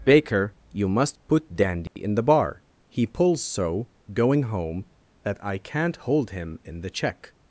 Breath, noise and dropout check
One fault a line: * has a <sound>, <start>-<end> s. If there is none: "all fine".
* has a dropout, 1.9-2.0 s